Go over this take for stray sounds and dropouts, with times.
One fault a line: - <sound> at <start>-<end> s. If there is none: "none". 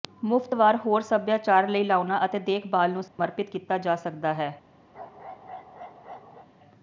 - dropout at 3.1-3.2 s
- bark at 4.9-6.5 s